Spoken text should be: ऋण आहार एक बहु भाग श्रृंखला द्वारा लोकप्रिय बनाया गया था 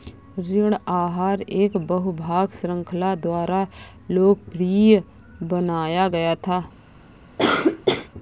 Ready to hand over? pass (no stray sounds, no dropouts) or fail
fail